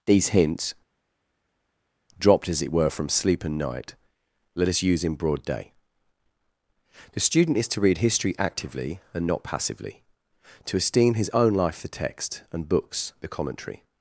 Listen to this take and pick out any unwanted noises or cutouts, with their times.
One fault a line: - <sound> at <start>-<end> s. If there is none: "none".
none